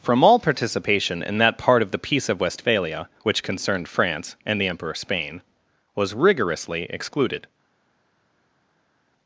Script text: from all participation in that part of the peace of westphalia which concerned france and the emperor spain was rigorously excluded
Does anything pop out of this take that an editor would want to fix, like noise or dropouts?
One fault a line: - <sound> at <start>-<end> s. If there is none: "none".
none